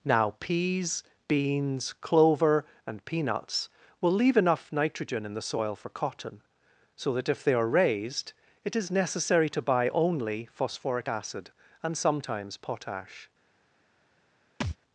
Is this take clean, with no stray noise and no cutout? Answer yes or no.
no